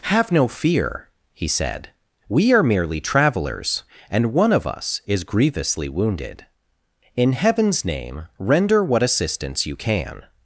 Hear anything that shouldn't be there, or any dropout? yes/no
no